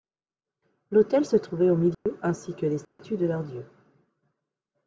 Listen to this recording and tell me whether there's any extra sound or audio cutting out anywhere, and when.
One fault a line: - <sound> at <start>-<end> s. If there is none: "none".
- dropout at 1.9-2.1 s
- dropout at 2.8-3.0 s